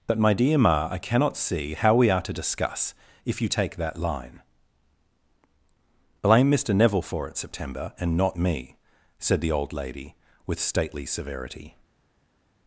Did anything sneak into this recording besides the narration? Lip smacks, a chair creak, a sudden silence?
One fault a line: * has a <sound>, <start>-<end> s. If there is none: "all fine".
all fine